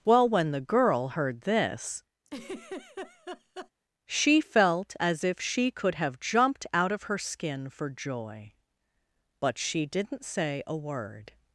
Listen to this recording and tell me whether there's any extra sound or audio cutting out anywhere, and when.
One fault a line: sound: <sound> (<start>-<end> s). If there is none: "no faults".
sound: laugh (2.3-3.7 s)